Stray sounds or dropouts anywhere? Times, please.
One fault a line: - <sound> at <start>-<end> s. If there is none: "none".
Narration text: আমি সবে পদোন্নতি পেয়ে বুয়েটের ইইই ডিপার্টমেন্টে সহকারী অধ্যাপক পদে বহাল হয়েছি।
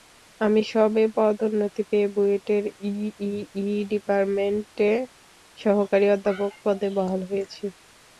none